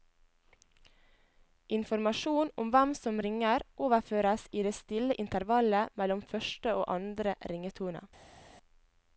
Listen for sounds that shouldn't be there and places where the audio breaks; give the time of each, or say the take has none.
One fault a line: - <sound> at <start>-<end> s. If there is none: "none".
none